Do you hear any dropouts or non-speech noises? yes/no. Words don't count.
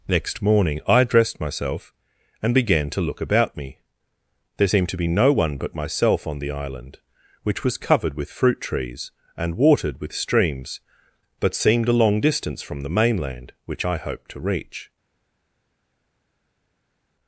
no